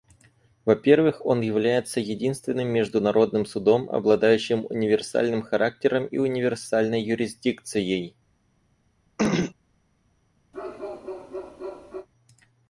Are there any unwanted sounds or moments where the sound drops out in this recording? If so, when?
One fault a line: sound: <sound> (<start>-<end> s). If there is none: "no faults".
sound: throat clearing (9.2-9.5 s)
sound: bark (10.5-12.1 s)